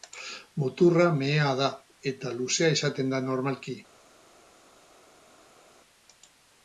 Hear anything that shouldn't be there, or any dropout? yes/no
no